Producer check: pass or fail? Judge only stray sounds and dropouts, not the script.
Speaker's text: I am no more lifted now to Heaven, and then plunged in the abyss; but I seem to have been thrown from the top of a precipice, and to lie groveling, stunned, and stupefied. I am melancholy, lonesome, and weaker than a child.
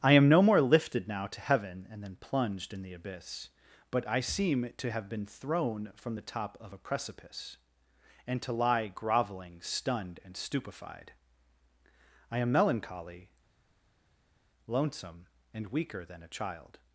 pass